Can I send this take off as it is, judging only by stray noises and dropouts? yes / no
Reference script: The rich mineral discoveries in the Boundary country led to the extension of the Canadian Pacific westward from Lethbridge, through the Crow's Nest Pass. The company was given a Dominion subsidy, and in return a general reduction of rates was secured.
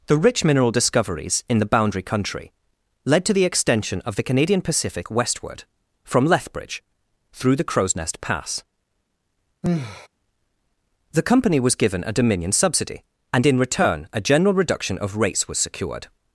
no